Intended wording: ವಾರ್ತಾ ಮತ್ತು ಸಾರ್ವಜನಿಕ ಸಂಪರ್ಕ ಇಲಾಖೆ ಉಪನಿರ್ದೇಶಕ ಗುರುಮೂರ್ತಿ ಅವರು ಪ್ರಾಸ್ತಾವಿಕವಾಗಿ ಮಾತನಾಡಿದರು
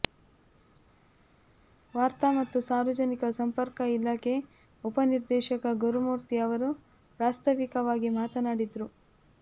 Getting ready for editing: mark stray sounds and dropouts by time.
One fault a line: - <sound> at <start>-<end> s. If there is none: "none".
none